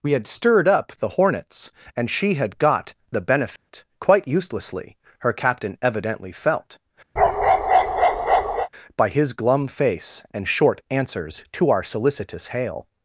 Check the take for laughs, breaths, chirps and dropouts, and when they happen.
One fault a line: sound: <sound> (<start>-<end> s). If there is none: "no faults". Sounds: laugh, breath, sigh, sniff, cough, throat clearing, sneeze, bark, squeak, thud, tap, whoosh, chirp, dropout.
sound: dropout (3.6-3.7 s)
sound: bark (7.2-8.7 s)